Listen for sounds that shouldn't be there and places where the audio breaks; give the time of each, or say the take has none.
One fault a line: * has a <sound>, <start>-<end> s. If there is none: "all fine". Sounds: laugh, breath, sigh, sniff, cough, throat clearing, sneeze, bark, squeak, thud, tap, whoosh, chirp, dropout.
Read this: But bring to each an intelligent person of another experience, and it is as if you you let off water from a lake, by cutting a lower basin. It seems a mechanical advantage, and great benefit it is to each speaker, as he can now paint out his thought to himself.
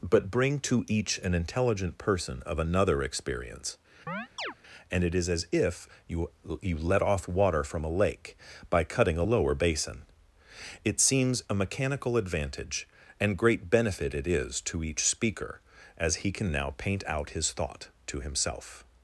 * has a chirp, 4.1-4.5 s